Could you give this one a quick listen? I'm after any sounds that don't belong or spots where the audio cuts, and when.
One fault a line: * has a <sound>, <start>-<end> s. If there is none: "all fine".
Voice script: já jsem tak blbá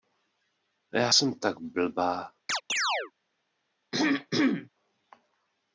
* has a chirp, 2.5-3.1 s
* has a throat clearing, 3.9-4.7 s